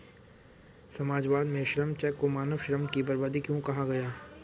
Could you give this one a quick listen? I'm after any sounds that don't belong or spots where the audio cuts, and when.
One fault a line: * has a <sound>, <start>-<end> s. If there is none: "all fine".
all fine